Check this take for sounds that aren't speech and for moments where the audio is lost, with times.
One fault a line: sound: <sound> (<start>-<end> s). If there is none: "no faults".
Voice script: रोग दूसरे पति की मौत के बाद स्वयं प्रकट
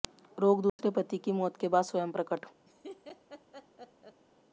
sound: dropout (0.7-0.8 s)
sound: laugh (2.7-4.2 s)